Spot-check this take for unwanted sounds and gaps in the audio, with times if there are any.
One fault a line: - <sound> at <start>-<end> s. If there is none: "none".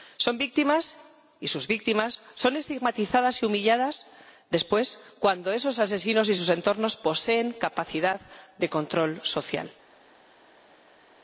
none